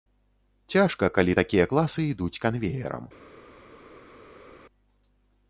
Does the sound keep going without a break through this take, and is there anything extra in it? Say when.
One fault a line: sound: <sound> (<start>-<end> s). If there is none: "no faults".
no faults